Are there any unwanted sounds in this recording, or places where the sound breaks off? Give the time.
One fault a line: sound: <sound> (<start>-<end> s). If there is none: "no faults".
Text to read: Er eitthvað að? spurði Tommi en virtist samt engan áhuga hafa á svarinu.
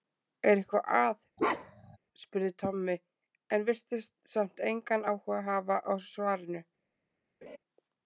sound: bark (1.4-2.0 s)
sound: laugh (7.4-7.6 s)